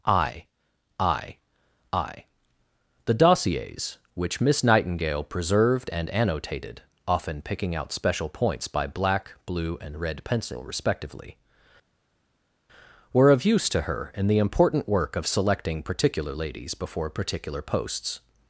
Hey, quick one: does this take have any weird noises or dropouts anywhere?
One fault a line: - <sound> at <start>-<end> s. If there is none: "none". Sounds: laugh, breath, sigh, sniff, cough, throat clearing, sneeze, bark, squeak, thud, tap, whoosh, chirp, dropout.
none